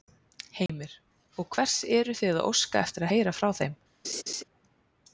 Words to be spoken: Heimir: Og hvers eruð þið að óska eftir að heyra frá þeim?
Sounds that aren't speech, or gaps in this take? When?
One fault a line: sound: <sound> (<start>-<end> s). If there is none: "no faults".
sound: dropout (0.7-0.7 s)
sound: laugh (4.0-4.4 s)